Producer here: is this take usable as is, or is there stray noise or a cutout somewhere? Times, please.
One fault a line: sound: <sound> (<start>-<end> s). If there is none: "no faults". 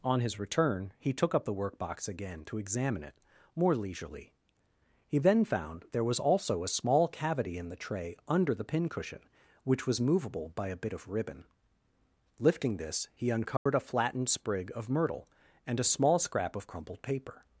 sound: dropout (13.6-13.7 s)